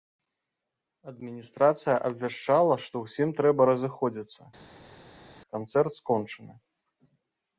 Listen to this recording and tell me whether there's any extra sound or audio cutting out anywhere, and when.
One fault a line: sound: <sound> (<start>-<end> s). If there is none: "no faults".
no faults